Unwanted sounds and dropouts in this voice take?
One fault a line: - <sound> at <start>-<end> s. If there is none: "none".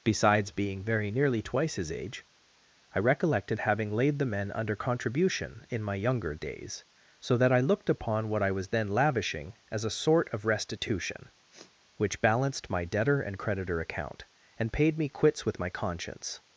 - sniff at 11.5-11.8 s